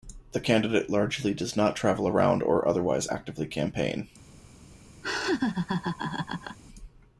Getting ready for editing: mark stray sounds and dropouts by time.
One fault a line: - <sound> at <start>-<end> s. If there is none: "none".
- laugh at 5.0-6.6 s